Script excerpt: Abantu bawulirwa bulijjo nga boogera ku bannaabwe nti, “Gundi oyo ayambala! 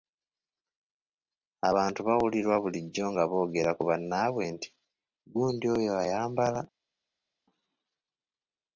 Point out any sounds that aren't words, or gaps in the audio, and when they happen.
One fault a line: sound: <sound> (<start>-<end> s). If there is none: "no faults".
no faults